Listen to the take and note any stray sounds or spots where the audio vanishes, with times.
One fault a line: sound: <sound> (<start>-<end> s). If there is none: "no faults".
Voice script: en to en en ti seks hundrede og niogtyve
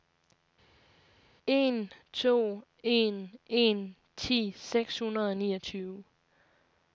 no faults